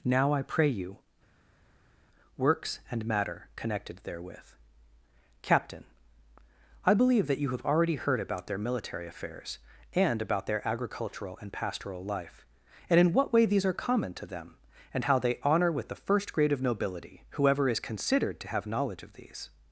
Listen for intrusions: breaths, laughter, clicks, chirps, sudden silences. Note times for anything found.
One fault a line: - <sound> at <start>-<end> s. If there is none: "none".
none